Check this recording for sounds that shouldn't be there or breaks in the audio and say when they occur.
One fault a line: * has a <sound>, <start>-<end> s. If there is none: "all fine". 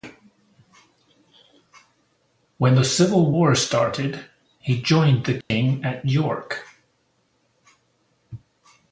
* has a dropout, 5.4-5.5 s